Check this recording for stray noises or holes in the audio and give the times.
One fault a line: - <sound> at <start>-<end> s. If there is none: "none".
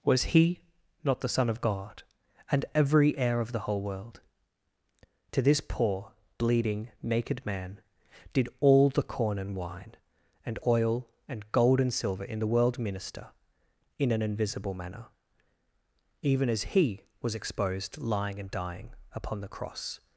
none